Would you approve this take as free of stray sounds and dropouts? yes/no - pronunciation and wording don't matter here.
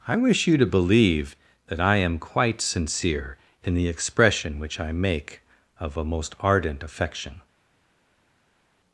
yes